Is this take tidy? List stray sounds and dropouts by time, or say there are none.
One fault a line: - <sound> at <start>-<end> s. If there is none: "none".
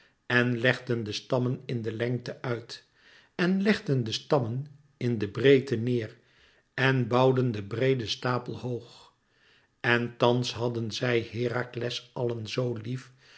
none